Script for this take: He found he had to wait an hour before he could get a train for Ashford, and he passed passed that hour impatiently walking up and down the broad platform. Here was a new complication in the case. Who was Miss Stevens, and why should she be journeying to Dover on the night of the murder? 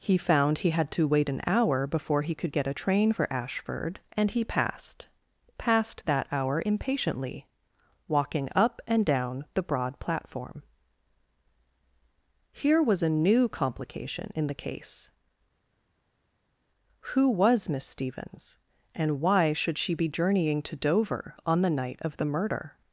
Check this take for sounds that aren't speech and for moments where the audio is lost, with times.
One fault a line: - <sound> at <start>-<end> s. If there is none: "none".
none